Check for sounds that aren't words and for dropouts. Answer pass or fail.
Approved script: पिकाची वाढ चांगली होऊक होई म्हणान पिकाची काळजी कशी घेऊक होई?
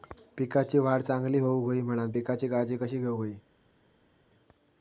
pass